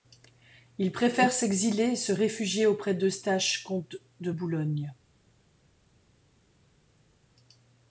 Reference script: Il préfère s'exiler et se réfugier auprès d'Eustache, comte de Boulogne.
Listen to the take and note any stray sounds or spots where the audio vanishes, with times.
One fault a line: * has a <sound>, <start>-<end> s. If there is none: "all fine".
all fine